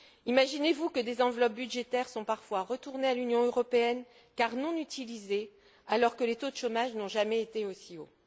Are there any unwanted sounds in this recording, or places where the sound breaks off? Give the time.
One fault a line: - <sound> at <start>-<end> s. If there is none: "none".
none